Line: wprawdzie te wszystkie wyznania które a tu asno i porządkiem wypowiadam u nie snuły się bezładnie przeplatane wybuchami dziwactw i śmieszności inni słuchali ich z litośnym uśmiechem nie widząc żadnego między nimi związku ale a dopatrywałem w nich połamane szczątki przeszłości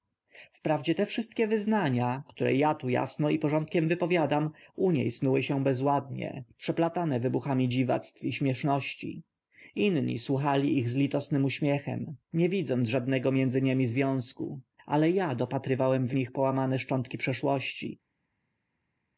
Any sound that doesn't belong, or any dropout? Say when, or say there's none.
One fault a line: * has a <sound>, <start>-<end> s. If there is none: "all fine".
all fine